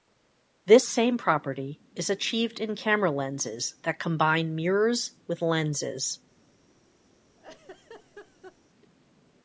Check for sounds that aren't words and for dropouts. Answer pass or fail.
fail